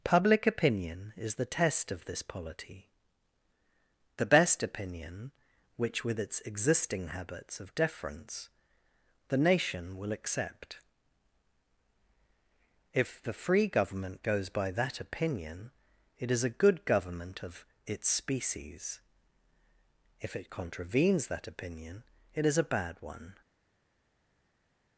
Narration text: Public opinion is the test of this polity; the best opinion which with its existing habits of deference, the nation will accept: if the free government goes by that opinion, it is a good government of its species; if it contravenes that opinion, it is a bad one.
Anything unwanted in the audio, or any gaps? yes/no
no